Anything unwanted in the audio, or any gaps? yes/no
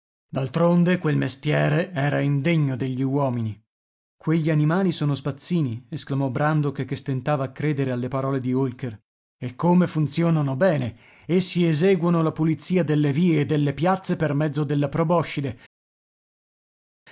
no